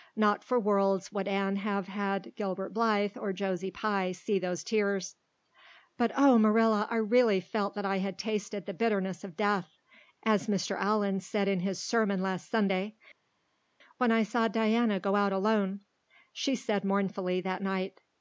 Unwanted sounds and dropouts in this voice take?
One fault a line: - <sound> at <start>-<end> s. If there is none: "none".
none